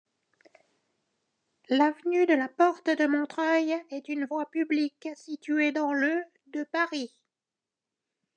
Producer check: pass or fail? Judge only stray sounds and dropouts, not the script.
pass